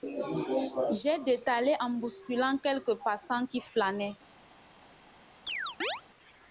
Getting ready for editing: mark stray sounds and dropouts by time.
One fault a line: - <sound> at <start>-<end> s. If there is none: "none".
- chirp at 5.5-6.0 s